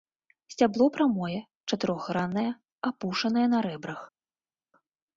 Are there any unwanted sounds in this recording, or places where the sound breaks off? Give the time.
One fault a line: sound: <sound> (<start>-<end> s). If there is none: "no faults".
no faults